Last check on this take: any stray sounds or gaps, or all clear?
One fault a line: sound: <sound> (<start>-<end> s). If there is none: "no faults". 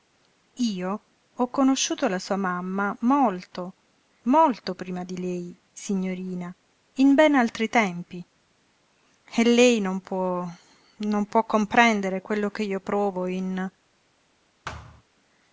sound: thud (14.6-15.0 s)